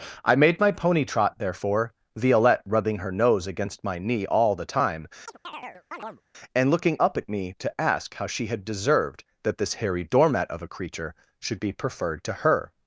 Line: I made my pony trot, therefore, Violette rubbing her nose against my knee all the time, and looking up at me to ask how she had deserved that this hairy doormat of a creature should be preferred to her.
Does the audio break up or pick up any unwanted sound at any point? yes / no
yes